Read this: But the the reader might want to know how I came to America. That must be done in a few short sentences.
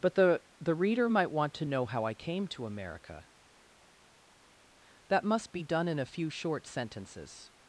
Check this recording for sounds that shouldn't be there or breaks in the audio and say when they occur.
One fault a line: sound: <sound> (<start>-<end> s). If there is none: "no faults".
no faults